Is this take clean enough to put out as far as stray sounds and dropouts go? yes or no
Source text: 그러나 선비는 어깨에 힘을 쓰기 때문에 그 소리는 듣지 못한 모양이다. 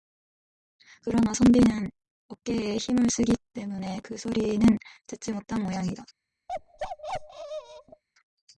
no